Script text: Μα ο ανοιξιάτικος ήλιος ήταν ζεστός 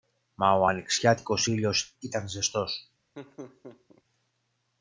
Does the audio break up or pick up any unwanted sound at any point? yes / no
yes